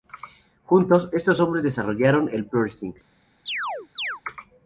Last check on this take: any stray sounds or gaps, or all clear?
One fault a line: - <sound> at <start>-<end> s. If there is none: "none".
- chirp at 3.5-4.2 s